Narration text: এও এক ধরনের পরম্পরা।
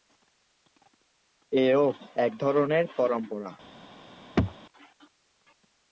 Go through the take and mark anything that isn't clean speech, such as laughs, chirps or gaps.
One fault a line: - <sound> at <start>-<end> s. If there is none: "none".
- throat clearing at 4.4-4.5 s